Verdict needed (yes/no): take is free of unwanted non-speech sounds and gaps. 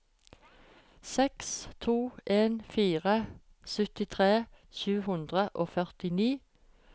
yes